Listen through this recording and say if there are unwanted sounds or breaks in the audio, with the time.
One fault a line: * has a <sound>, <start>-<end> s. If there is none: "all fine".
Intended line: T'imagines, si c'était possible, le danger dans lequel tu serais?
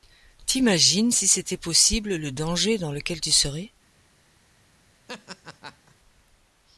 * has a laugh, 5.1-5.9 s